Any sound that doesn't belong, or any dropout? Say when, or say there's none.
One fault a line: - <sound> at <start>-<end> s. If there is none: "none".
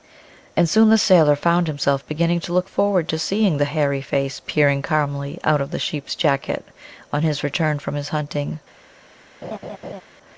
- laugh at 9.4-10.0 s